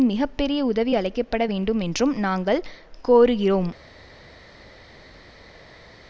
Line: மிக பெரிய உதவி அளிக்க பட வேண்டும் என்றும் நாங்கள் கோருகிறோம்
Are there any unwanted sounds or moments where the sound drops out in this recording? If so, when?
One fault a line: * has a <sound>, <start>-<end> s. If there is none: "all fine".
all fine